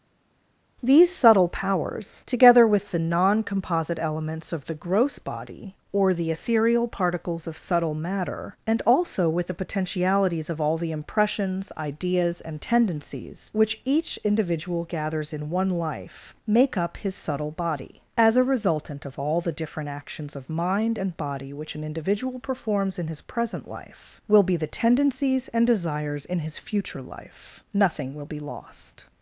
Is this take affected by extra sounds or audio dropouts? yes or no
no